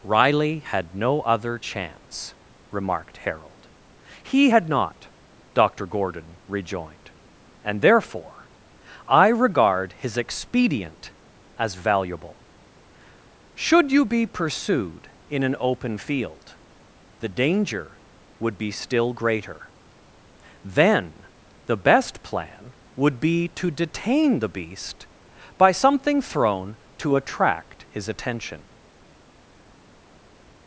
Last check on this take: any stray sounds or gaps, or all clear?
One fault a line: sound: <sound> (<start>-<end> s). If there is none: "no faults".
no faults